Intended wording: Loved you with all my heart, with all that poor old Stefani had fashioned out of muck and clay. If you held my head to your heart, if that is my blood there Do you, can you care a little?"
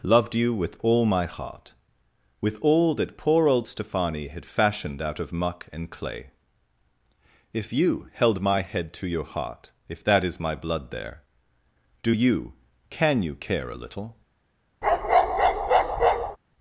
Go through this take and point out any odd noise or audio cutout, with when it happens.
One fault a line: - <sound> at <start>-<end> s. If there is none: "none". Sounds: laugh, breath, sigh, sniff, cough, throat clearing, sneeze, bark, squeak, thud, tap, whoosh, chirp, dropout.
- bark at 14.8-16.4 s